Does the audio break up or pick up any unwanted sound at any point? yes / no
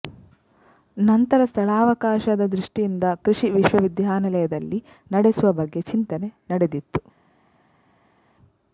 no